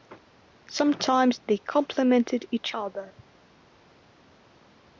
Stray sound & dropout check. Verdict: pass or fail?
pass